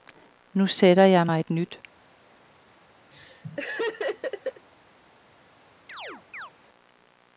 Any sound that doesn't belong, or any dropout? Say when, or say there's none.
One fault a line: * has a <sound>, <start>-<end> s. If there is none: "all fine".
* has a laugh, 3.1-4.7 s
* has a chirp, 5.9-6.5 s